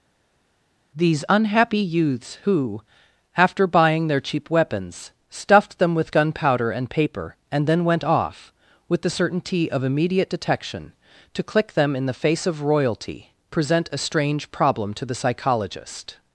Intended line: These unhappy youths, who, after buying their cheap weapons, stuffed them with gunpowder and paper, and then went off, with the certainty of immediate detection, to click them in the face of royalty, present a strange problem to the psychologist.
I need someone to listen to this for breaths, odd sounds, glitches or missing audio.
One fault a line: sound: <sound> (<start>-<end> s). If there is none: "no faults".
no faults